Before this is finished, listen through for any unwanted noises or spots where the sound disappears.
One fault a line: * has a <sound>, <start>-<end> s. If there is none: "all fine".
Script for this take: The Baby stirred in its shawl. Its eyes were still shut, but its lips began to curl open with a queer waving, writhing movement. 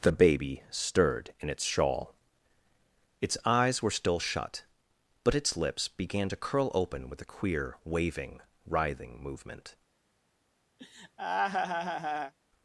* has a laugh, 10.8-12.3 s